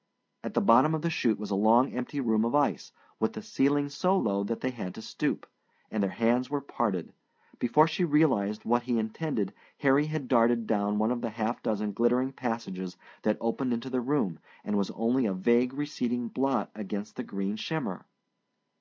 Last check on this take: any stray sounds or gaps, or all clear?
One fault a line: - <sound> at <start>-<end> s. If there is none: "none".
none